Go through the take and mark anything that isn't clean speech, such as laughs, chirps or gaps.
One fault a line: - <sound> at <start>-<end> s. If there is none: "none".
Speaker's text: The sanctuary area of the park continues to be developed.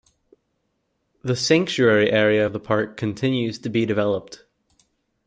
none